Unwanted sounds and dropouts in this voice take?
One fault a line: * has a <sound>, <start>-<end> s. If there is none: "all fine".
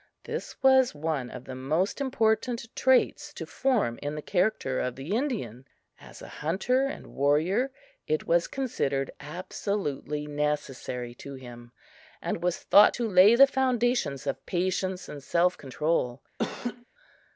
* has a laugh, 16.4-16.9 s